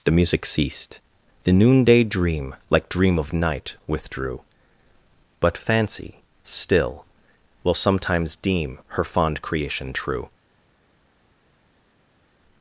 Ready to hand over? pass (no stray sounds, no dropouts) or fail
pass